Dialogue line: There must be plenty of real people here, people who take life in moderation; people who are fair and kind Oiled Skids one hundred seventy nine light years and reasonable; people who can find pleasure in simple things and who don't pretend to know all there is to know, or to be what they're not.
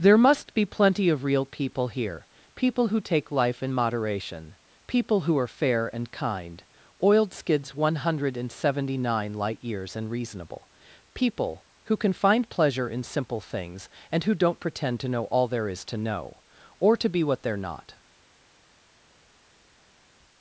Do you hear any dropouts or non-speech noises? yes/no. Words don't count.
no